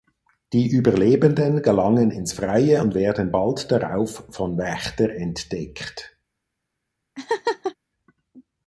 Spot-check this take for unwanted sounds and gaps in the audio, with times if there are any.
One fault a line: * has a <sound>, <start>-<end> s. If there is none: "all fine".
* has a laugh, 7.2-7.8 s